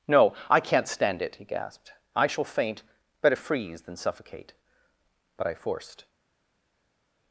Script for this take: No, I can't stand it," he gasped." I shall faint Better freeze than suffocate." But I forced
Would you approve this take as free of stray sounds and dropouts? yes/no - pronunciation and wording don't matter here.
yes